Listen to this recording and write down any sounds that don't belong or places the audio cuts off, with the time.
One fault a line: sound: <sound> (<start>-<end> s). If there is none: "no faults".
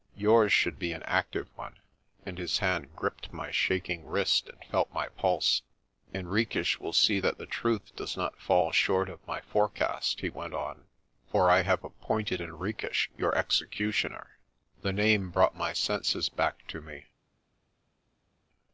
no faults